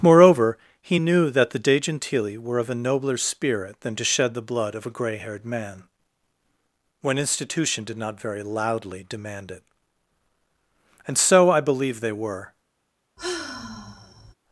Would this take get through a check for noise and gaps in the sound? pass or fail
fail